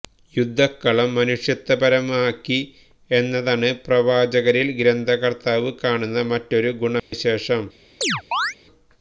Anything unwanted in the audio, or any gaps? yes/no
yes